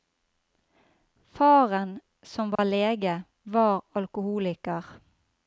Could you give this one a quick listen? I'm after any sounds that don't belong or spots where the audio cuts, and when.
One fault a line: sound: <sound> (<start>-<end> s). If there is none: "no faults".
sound: dropout (2.6-2.6 s)